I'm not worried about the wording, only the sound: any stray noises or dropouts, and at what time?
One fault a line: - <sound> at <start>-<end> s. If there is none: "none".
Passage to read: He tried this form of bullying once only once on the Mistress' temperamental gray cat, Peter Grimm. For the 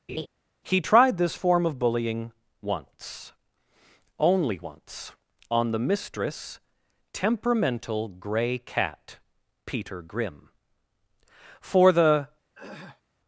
- laugh at 0.1-0.3 s
- throat clearing at 12.5-13.0 s